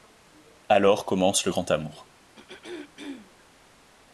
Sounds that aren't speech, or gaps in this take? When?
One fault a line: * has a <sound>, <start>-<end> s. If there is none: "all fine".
* has a throat clearing, 2.3-3.5 s